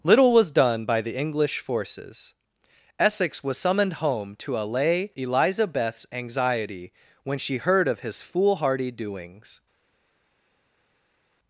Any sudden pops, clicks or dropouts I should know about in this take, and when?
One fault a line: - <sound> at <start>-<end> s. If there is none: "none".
none